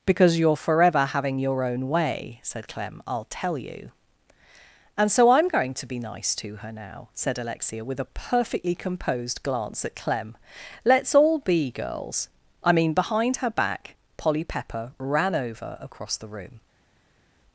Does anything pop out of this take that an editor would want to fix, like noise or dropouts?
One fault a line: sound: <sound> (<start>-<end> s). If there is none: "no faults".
no faults